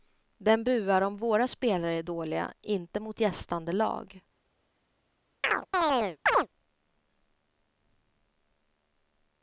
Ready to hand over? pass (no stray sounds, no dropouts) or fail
fail